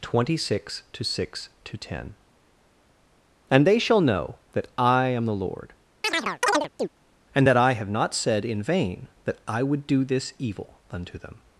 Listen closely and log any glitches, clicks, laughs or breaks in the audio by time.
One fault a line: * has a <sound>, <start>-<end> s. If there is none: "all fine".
* has a chirp, 6.0-6.9 s